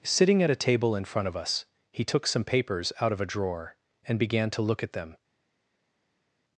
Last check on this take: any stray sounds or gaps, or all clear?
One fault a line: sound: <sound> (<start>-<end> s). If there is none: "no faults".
no faults